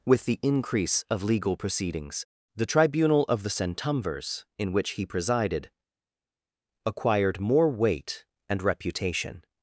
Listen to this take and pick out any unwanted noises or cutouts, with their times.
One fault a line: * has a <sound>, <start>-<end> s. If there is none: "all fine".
all fine